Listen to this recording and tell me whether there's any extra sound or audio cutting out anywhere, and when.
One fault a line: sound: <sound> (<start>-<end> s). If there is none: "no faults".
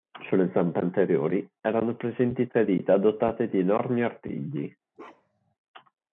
sound: bark (4.9-5.5 s)